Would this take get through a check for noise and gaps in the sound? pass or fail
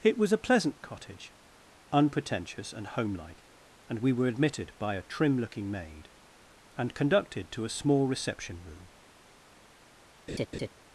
fail